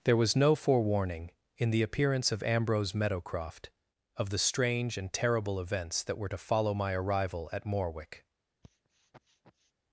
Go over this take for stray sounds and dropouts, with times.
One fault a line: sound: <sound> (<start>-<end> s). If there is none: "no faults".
sound: sniff (8.6-9.7 s)